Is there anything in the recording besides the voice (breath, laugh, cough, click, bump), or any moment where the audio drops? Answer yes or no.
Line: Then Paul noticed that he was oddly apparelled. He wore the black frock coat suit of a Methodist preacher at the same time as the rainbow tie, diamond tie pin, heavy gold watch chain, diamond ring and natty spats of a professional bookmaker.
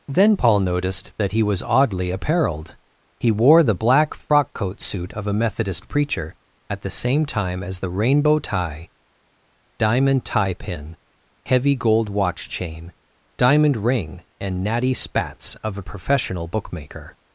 no